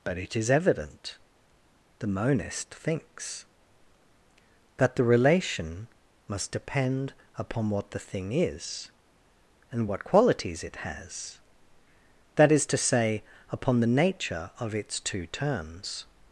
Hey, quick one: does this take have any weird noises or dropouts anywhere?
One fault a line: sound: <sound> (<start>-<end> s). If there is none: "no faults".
no faults